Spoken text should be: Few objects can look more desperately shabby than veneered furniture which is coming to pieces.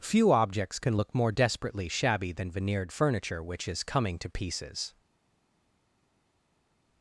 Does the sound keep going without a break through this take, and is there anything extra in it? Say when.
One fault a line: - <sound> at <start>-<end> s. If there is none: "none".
none